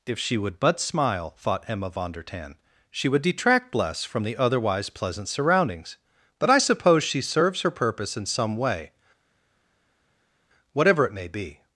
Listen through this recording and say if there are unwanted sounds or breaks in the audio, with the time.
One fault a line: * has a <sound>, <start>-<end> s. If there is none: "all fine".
all fine